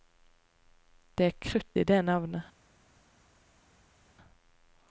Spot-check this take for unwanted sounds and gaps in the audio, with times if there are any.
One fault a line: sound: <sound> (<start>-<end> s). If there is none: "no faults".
no faults